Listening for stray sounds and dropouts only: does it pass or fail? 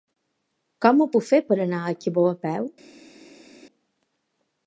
pass